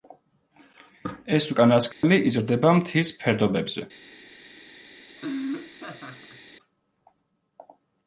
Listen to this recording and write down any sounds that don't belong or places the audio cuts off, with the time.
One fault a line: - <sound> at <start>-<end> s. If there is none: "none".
- dropout at 1.9-2.0 s
- laugh at 5.2-6.4 s